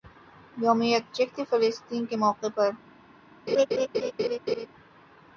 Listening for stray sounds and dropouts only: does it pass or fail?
fail